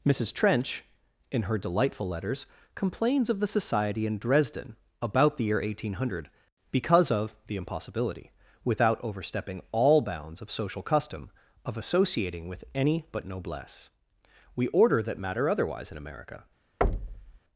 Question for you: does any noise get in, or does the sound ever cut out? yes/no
yes